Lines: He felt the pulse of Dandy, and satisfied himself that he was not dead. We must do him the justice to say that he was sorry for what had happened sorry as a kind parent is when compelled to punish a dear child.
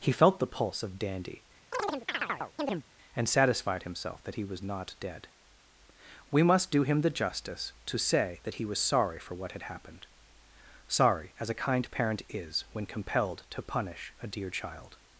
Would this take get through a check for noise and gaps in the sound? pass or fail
fail